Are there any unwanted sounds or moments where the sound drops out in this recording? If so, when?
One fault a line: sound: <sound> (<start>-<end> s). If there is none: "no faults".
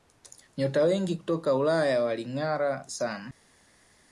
no faults